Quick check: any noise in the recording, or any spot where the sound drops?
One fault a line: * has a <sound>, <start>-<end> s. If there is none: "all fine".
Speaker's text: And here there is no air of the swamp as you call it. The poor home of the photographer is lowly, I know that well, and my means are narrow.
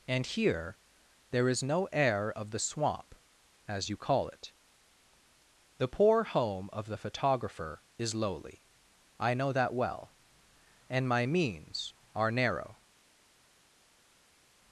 all fine